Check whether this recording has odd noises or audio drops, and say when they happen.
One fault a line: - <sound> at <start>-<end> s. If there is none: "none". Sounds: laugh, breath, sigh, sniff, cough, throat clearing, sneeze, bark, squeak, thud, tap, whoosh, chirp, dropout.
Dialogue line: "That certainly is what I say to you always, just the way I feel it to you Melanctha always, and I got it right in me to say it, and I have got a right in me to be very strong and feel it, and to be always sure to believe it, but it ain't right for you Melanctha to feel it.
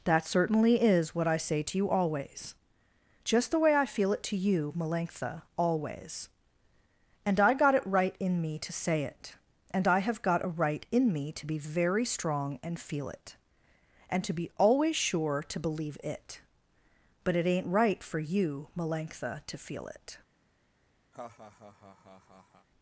- laugh at 21.1-22.7 s